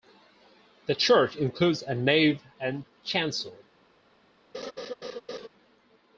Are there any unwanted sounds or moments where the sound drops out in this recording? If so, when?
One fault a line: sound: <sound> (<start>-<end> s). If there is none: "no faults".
sound: laugh (4.5-5.5 s)